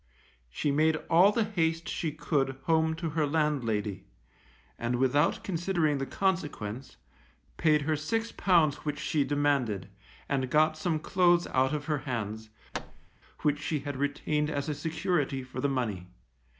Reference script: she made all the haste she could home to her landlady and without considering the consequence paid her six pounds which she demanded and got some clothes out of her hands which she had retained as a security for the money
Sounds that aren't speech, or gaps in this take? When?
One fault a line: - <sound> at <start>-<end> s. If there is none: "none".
- thud at 12.7-13.1 s